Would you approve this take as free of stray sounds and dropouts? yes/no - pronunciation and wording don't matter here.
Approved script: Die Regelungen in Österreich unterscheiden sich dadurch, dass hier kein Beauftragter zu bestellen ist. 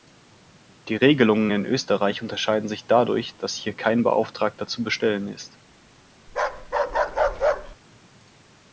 no